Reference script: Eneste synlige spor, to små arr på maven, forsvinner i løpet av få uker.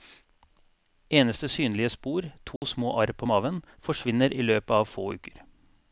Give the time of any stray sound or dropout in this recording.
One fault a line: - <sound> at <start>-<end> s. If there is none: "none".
- dropout at 2.6-2.6 s